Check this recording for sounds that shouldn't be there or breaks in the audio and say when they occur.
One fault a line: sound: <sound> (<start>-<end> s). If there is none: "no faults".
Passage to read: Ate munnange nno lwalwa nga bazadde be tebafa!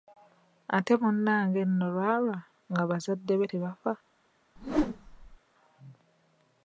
sound: whoosh (4.6-5.4 s)